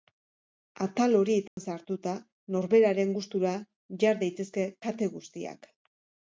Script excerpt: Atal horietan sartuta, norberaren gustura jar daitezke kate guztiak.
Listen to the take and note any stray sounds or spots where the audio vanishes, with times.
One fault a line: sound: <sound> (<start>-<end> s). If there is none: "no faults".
sound: dropout (1.5-1.6 s)